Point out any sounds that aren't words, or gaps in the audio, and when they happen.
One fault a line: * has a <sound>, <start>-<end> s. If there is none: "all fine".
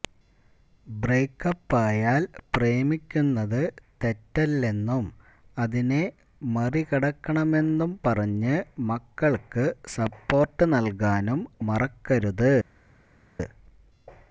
all fine